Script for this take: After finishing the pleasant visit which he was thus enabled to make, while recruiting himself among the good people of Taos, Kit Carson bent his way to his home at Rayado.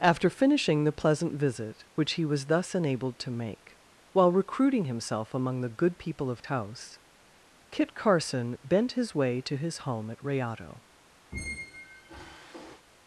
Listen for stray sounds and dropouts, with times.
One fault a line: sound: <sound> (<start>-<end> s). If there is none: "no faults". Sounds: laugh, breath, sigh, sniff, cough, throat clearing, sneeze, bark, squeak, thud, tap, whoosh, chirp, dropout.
sound: squeak (11.3-12.9 s)